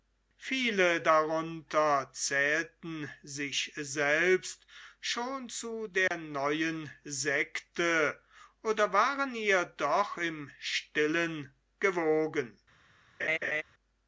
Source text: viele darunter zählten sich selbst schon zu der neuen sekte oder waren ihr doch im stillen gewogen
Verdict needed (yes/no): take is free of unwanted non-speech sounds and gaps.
no